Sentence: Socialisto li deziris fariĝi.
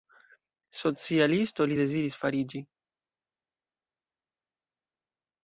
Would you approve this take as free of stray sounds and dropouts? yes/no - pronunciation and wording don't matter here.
yes